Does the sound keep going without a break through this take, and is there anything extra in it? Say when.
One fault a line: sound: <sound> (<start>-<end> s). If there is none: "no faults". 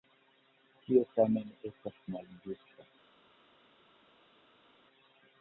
no faults